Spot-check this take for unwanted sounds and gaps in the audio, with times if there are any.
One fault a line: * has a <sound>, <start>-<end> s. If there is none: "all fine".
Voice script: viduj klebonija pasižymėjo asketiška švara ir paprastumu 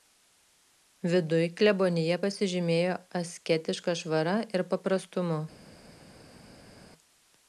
all fine